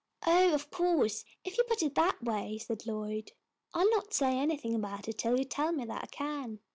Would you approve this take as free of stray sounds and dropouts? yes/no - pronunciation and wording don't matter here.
yes